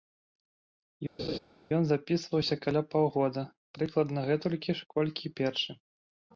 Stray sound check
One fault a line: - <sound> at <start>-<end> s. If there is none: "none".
- laugh at 1.2-1.4 s